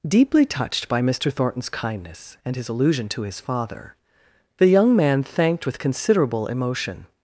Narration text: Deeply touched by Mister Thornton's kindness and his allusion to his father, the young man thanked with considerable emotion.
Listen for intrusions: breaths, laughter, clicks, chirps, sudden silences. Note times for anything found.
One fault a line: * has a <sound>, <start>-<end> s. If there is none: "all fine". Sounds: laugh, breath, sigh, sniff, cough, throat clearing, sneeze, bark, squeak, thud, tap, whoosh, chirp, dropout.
all fine